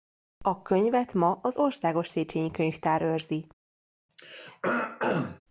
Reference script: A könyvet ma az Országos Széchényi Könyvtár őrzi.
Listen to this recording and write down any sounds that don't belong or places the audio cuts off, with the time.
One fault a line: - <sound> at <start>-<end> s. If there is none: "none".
- throat clearing at 4.1-5.4 s